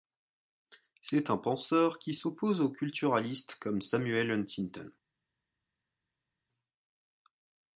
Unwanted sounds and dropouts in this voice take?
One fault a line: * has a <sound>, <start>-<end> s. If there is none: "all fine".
all fine